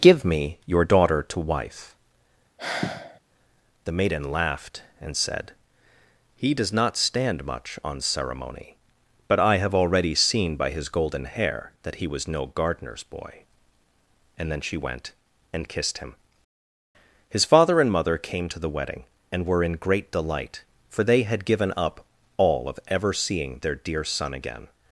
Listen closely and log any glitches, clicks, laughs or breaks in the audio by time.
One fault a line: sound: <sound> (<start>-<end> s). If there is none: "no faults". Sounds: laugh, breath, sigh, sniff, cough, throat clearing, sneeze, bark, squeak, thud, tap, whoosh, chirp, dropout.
sound: sigh (2.6-3.2 s)